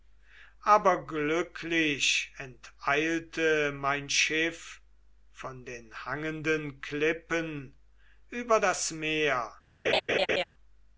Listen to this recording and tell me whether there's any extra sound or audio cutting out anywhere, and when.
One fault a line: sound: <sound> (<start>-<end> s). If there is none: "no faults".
sound: laugh (9.8-10.4 s)